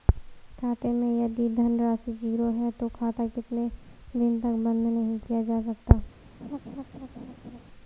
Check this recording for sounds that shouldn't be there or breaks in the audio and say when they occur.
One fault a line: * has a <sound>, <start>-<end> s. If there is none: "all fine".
* has a laugh, 6.4-7.6 s